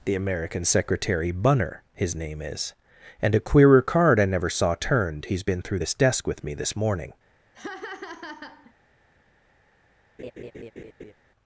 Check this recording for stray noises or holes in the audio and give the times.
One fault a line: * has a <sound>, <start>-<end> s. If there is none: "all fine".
* has a laugh, 7.5-8.7 s
* has a laugh, 10.2-11.1 s